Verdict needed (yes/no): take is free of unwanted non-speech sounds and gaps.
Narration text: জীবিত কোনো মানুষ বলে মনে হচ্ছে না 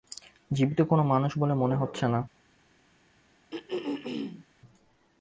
no